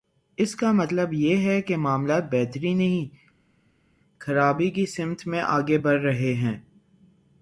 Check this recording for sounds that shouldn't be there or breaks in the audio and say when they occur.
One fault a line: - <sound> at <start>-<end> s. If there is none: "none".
none